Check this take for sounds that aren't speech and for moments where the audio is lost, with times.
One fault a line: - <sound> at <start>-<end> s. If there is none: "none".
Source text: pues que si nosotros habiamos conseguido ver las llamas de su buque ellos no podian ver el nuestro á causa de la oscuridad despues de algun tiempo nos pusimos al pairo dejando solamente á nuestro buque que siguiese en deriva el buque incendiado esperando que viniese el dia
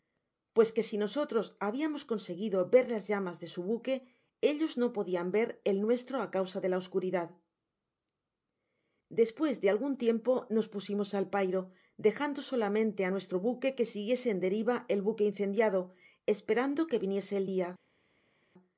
none